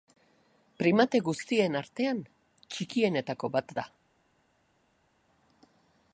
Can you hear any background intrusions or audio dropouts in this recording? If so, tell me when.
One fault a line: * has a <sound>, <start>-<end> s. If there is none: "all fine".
all fine